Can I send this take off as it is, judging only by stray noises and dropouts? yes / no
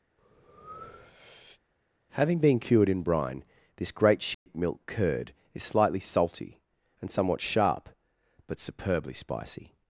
no